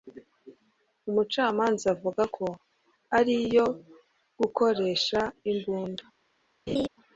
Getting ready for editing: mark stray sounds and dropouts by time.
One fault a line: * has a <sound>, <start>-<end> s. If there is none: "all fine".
* has a laugh, 6.7-6.9 s